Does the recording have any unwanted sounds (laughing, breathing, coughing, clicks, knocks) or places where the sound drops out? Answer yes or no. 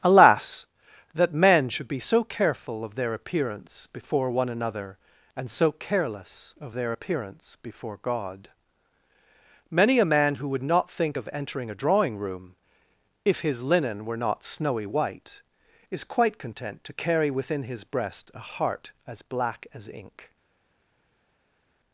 no